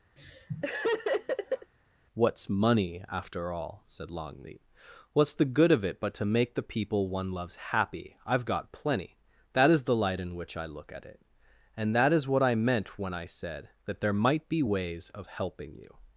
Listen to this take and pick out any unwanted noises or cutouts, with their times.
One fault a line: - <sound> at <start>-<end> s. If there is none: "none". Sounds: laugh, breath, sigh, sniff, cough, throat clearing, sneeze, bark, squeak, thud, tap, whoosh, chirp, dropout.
- laugh at 0.2-1.7 s